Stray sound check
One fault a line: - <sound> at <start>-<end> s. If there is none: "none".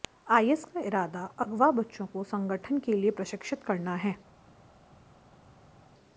none